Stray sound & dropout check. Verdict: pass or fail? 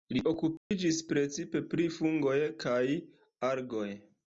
fail